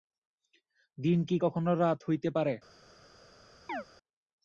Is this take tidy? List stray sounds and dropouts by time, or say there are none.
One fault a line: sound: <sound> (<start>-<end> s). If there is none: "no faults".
sound: chirp (3.7-3.8 s)